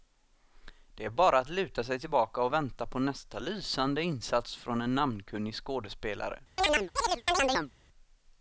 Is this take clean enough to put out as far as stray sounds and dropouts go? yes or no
no